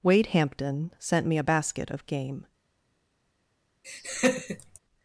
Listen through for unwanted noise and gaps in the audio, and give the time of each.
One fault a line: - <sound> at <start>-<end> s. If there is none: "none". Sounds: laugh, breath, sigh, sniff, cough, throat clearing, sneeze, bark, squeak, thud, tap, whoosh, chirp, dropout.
- laugh at 3.8-4.8 s